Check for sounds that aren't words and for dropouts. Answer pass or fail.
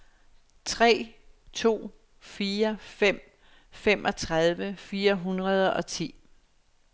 pass